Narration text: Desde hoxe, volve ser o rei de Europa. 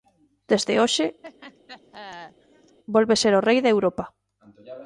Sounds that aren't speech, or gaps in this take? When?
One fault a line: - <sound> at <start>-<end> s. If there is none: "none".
- laugh at 1.2-2.8 s